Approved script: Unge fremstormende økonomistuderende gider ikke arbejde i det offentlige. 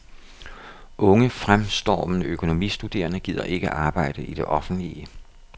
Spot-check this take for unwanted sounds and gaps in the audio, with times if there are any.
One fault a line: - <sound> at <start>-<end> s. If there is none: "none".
none